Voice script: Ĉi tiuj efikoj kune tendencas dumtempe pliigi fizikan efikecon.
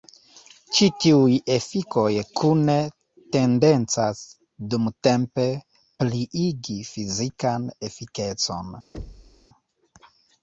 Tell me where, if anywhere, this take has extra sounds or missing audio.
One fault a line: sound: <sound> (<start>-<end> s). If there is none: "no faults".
sound: thud (8.9-9.5 s)